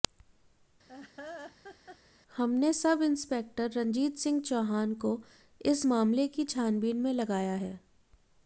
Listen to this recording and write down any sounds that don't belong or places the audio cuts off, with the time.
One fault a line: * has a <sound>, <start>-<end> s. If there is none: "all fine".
* has a laugh, 0.9-2.0 s